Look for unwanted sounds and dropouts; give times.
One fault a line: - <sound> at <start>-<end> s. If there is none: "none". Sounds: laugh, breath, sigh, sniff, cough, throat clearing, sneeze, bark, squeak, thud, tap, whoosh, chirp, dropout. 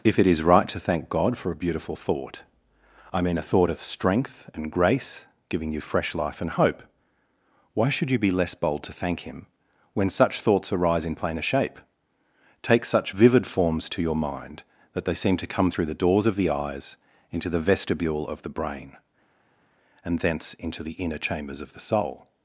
none